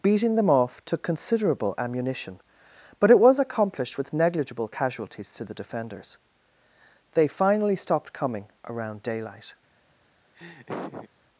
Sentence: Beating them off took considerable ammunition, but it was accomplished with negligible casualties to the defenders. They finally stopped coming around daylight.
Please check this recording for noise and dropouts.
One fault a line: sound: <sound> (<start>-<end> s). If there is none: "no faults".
sound: laugh (10.3-11.1 s)